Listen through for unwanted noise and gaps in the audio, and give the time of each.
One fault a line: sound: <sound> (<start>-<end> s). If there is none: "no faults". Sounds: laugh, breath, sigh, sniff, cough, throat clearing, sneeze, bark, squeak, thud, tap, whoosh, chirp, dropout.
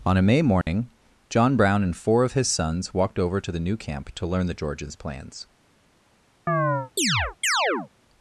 sound: dropout (0.6-0.7 s)
sound: chirp (6.5-7.9 s)